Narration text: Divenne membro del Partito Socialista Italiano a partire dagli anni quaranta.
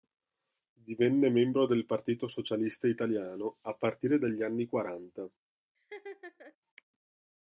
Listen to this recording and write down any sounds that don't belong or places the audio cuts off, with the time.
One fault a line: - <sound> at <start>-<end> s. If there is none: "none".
- laugh at 5.7-6.6 s